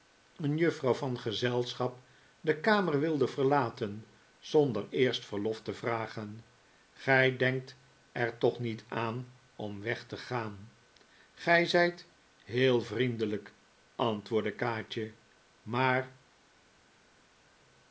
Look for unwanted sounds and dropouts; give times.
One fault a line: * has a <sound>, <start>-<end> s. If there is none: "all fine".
all fine